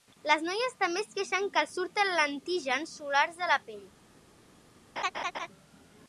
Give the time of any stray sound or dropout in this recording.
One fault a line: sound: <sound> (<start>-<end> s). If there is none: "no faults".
sound: laugh (5.0-5.5 s)